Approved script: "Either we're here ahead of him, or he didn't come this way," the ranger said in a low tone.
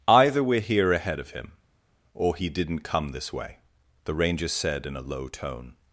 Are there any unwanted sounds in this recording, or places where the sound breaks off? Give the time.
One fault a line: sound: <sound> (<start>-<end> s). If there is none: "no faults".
no faults